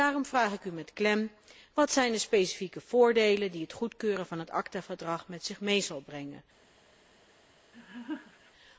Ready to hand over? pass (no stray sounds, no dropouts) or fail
fail